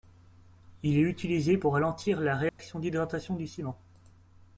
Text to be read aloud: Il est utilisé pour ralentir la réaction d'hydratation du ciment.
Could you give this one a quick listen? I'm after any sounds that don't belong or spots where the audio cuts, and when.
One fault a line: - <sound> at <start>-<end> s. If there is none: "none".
- dropout at 2.5-2.6 s